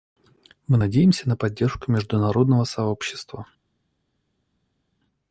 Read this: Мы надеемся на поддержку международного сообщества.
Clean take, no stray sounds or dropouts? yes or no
yes